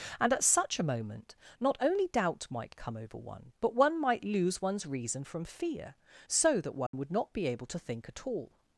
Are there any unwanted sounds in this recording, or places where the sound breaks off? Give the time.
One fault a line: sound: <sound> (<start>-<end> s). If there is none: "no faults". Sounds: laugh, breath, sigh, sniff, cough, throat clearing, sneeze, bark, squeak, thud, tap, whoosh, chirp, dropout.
sound: dropout (6.9-6.9 s)